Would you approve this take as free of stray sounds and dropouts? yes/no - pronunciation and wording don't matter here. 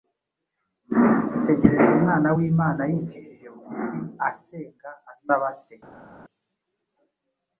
yes